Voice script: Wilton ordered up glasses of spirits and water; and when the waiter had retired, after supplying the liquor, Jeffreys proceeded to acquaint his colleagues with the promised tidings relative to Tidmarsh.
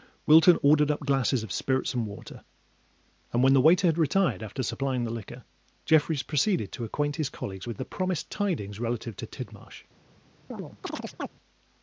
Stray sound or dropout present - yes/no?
yes